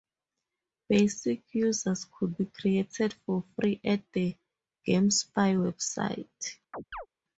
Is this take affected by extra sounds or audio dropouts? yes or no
yes